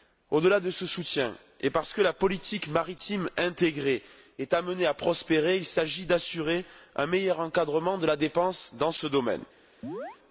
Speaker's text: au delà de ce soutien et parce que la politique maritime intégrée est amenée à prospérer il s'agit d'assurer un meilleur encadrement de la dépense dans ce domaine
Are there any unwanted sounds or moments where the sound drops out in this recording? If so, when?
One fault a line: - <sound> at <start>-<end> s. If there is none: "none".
- chirp at 9.8-10.2 s